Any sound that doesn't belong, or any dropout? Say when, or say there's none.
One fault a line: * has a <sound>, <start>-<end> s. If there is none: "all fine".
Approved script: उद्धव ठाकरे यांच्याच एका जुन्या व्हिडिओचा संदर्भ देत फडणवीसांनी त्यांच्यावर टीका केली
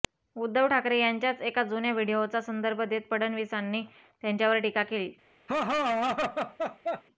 * has a laugh, 5.5-7.0 s